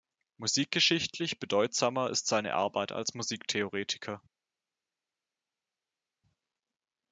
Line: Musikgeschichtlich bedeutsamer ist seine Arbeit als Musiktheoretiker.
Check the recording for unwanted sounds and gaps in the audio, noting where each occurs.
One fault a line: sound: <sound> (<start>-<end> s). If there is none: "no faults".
no faults